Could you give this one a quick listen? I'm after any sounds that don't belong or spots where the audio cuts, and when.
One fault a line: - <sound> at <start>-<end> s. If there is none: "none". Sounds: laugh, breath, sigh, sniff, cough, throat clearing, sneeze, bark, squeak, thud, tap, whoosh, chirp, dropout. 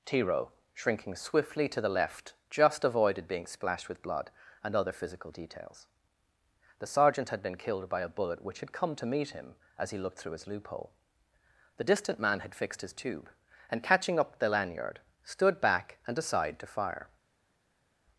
none